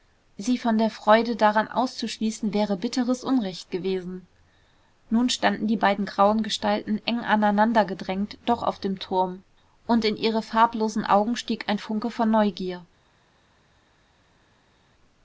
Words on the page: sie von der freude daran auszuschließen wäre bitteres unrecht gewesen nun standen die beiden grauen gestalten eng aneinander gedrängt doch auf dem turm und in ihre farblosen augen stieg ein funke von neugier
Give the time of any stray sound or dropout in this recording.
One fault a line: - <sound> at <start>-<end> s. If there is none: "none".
none